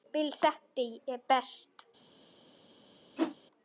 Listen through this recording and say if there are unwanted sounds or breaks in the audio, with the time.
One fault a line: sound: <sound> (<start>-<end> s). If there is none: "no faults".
sound: whoosh (3.2-3.4 s)